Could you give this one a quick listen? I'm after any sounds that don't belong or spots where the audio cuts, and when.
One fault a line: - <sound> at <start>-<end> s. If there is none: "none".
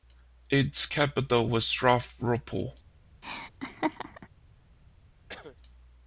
- laugh at 3.2-4.3 s
- cough at 5.3-5.6 s